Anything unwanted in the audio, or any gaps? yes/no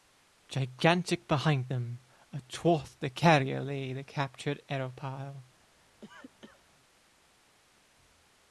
yes